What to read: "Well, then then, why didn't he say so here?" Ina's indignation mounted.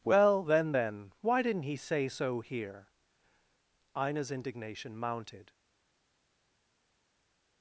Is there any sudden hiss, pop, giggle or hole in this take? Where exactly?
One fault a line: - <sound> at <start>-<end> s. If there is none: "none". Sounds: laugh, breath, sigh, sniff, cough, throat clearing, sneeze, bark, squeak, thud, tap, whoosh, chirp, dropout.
none